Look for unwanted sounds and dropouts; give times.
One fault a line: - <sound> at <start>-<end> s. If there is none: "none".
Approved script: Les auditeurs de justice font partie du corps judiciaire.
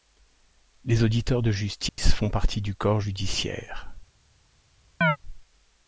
- dropout at 1.9-2.0 s
- chirp at 5.0-5.2 s